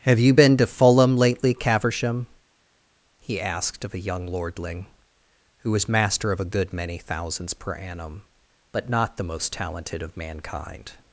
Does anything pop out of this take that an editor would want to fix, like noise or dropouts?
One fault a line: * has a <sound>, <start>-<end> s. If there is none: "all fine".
all fine